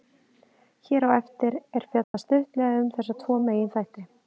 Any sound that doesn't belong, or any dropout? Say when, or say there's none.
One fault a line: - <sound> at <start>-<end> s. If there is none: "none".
- dropout at 2.0-2.1 s